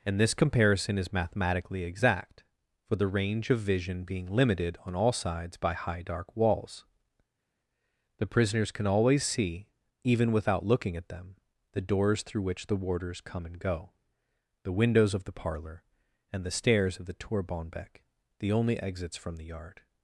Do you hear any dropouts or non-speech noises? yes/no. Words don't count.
no